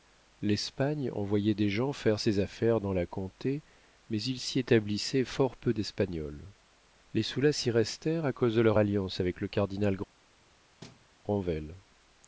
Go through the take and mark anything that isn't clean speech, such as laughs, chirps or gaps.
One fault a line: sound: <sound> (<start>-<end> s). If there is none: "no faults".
sound: thud (10.8-11.1 s)